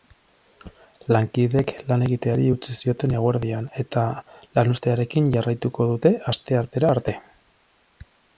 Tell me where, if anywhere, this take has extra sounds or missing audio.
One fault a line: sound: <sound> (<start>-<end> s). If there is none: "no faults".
no faults